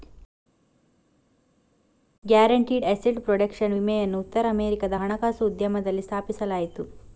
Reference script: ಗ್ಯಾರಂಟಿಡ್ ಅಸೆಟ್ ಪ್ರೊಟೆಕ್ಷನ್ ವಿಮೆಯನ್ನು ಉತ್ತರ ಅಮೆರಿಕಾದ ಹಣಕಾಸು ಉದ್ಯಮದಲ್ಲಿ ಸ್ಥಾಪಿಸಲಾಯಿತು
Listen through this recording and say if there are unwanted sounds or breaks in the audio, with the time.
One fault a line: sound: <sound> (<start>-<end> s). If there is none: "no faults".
no faults